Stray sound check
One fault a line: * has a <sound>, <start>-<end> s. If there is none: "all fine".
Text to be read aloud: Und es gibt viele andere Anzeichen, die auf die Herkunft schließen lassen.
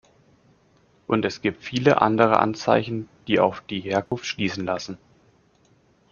* has a dropout, 4.1-4.1 s